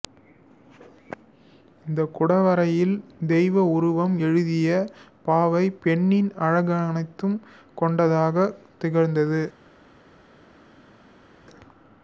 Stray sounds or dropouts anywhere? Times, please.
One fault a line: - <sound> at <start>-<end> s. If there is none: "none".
none